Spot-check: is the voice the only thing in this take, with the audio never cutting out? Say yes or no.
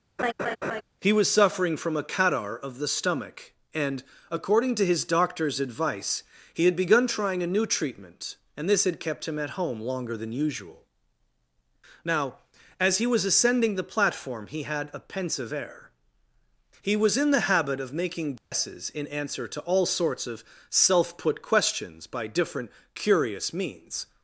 no